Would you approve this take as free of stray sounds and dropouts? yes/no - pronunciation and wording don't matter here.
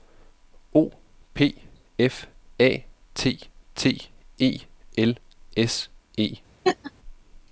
no